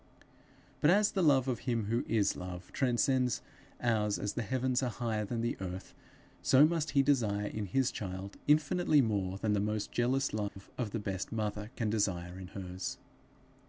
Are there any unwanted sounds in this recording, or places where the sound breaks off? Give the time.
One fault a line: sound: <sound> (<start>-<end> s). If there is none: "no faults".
sound: dropout (10.5-10.6 s)